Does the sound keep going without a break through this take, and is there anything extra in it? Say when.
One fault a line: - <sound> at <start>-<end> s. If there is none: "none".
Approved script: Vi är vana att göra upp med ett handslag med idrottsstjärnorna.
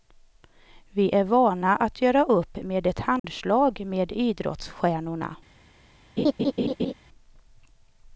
- dropout at 3.2-3.2 s
- laugh at 6.2-6.9 s